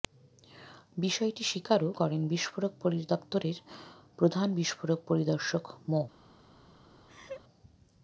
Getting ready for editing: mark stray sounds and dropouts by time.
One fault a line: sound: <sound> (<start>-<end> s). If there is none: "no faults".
sound: laugh (7.1-7.4 s)